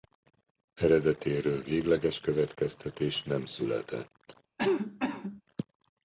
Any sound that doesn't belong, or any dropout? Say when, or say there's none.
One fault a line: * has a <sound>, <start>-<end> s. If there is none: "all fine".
* has a cough, 4.6-5.4 s